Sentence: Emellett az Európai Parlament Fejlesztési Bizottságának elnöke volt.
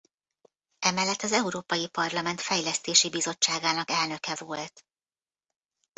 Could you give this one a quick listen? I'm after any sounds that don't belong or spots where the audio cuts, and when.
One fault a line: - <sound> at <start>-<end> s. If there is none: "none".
none